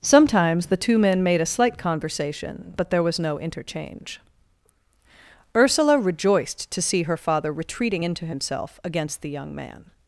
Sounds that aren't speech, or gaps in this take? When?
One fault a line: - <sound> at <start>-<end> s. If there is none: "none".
none